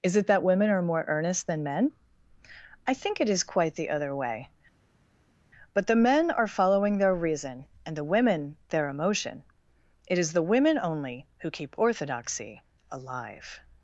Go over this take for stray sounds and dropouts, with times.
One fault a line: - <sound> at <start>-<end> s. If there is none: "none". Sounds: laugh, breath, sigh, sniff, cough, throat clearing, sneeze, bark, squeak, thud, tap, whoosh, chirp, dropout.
none